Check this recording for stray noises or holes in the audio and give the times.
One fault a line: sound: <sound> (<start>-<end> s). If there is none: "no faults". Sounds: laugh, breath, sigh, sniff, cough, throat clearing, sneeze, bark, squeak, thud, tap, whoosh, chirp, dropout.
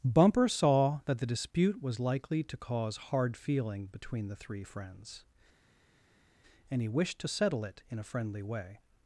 no faults